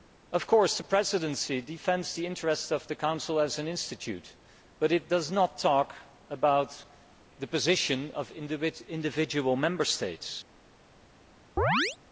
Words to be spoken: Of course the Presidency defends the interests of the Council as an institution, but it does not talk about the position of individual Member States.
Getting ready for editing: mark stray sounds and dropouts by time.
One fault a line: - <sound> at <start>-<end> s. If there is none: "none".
- chirp at 11.6-12.0 s